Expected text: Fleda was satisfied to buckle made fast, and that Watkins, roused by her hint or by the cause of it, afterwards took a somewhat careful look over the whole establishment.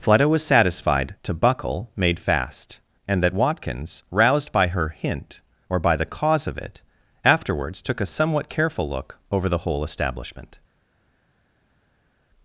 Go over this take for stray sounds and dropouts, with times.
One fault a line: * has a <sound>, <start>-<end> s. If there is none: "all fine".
all fine